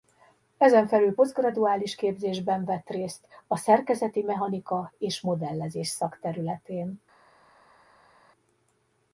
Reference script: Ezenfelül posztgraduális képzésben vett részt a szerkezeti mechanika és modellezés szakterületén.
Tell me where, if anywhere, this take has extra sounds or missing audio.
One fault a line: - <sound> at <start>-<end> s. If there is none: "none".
none